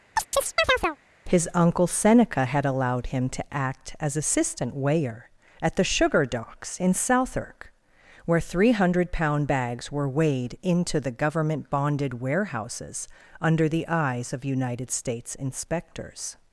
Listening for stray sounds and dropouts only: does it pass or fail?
fail